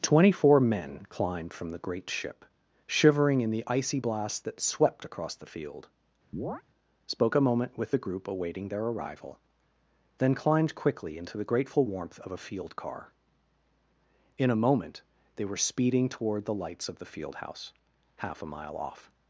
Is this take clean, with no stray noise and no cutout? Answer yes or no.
no